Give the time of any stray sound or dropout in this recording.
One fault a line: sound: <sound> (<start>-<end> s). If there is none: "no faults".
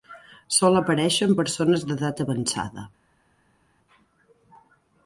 no faults